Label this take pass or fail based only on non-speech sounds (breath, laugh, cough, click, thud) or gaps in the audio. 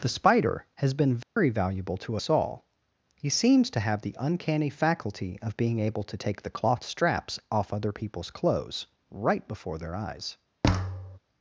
fail